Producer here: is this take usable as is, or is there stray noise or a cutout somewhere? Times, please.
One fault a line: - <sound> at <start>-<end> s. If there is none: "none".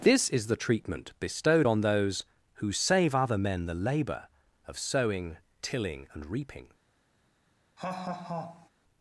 - laugh at 7.8-8.7 s